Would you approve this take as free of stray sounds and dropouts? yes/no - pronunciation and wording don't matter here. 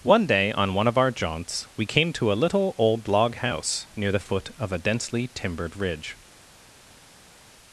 yes